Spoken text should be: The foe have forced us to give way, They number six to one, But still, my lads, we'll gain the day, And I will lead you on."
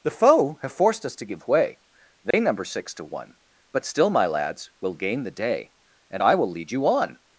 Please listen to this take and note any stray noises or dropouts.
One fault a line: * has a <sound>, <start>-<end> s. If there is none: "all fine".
* has a dropout, 2.3-2.3 s